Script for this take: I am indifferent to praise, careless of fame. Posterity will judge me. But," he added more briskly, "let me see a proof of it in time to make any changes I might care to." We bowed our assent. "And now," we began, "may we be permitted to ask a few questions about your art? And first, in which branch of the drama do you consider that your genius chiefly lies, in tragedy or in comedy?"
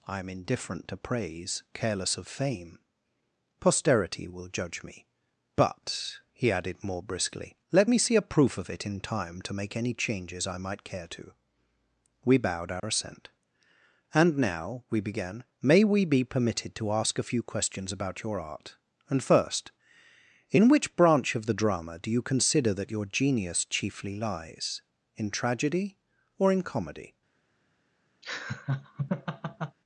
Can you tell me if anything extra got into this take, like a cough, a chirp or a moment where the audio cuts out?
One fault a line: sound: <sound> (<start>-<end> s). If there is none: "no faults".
sound: dropout (12.8-12.8 s)
sound: laugh (28.2-29.8 s)